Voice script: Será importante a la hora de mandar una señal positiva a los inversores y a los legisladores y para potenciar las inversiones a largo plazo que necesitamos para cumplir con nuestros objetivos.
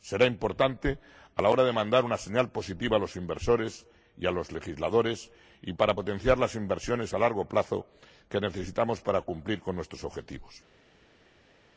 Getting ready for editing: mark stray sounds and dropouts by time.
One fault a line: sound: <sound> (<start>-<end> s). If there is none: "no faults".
no faults